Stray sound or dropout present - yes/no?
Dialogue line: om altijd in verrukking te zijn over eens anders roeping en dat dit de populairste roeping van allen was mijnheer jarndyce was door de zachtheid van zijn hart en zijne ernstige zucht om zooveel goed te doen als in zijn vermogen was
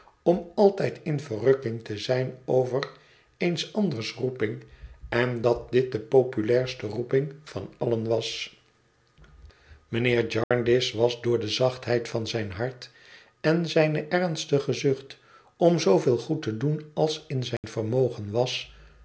yes